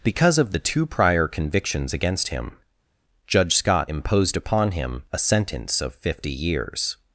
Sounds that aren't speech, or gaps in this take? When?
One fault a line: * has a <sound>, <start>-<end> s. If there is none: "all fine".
all fine